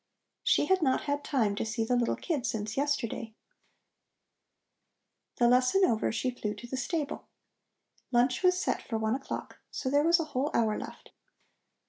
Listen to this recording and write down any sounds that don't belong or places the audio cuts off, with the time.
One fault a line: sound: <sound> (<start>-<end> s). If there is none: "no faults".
no faults